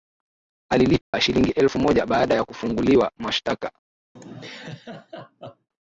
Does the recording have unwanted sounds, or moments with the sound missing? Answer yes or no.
yes